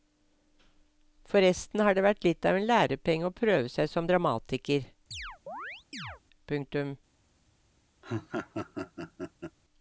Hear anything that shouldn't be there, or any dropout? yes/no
yes